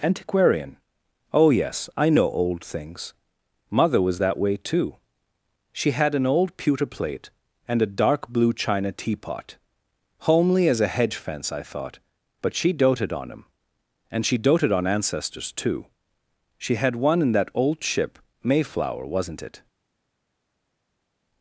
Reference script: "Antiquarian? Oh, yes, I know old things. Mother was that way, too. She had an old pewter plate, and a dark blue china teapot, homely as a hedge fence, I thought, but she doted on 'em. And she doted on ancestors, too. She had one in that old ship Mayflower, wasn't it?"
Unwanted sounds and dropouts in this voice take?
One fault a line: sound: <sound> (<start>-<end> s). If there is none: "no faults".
no faults